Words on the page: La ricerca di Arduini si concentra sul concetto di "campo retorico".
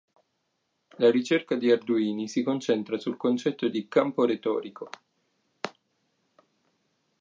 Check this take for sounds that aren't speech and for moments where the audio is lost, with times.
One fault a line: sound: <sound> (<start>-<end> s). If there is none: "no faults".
no faults